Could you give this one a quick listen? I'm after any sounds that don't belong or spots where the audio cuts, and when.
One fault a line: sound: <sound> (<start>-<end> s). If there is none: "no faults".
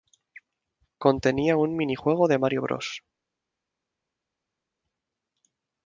no faults